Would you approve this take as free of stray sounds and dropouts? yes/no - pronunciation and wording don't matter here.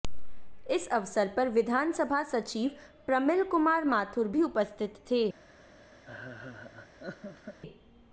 no